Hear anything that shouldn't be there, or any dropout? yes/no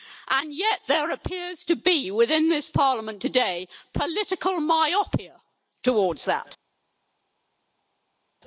no